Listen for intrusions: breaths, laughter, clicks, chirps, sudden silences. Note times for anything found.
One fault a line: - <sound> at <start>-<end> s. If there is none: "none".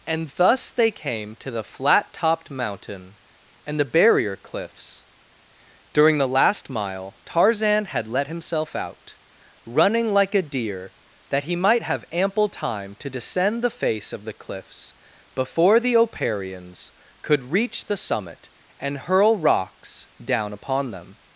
none